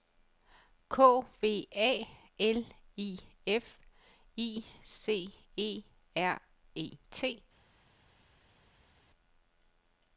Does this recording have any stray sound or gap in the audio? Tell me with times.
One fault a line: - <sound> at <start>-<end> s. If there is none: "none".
none